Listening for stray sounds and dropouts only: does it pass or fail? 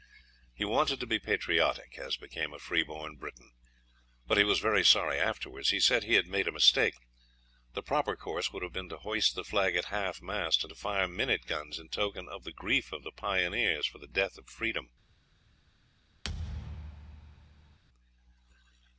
fail